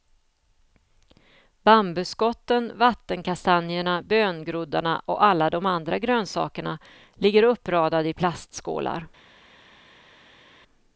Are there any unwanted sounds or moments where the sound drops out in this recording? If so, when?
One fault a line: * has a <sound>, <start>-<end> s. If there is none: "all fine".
all fine